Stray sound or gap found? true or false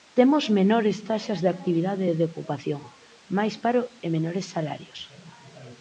false